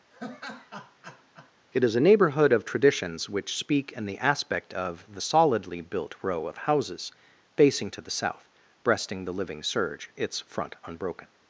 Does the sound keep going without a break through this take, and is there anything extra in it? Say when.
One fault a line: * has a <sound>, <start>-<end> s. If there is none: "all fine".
* has a laugh, 0.1-1.5 s